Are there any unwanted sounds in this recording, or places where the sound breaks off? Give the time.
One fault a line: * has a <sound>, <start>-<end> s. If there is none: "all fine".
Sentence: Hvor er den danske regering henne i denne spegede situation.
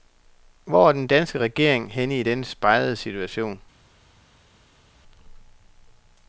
all fine